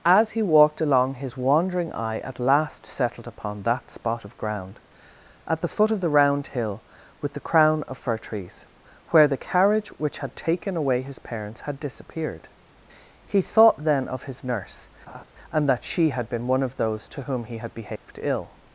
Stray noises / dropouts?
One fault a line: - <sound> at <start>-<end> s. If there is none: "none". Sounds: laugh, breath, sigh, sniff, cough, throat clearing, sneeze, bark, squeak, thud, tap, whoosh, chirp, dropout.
- laugh at 15.1-15.2 s
- dropout at 18.0-18.1 s